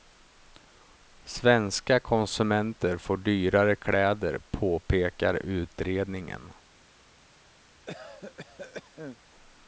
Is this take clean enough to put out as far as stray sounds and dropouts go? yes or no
no